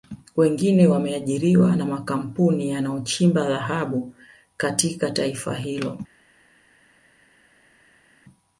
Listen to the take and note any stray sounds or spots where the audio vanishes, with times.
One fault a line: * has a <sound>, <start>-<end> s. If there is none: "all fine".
all fine